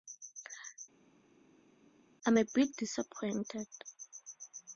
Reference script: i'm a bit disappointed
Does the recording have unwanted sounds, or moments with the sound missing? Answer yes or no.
no